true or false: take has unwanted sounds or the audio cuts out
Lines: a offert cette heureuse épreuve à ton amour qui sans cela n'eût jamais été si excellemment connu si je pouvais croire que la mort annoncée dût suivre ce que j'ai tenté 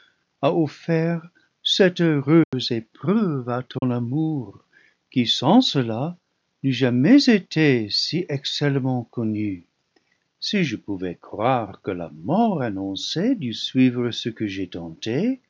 true